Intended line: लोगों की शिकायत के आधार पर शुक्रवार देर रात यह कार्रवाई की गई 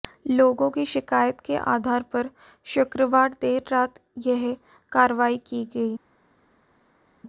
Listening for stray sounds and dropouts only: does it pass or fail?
pass